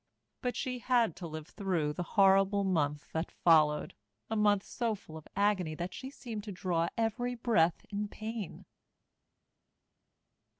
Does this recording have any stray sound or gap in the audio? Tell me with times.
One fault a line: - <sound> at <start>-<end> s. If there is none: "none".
none